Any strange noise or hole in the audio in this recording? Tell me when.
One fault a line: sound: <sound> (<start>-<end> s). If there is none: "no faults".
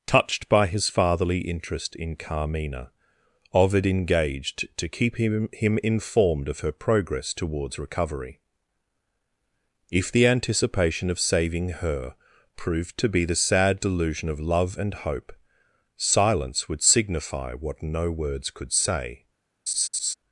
sound: laugh (19.7-20.1 s)